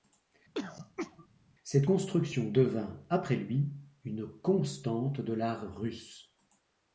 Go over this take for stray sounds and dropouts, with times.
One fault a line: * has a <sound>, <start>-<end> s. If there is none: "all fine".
* has a throat clearing, 0.5-1.3 s